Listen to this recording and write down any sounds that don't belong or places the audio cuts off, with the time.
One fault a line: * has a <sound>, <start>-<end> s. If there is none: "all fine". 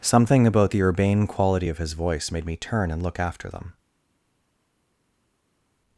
all fine